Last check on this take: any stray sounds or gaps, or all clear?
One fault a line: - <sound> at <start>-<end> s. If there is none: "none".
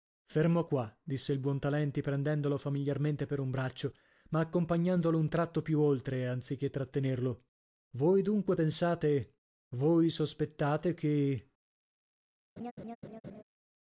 - laugh at 12.6-13.4 s